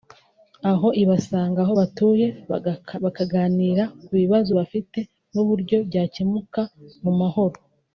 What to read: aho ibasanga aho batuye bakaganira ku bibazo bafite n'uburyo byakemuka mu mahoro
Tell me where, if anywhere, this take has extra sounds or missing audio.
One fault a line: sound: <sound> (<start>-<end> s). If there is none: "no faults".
no faults